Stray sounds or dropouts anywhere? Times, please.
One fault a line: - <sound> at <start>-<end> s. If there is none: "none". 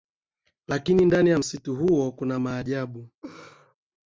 - laugh at 3.2-3.7 s